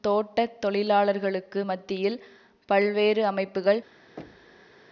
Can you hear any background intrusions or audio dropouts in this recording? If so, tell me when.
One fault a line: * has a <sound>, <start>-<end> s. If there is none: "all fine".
* has a thud, 4.2-4.8 s